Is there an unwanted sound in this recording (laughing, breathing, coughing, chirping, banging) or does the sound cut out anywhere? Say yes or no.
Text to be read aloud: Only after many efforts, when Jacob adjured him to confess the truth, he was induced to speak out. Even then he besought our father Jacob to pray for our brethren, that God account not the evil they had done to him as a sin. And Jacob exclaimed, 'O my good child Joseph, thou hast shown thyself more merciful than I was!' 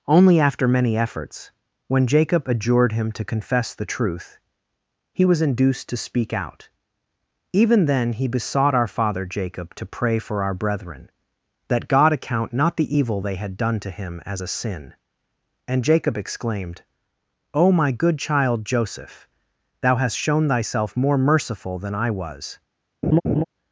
yes